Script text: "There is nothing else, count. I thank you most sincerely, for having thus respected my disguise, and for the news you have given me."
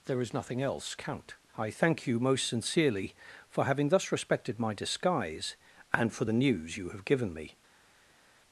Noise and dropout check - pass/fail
pass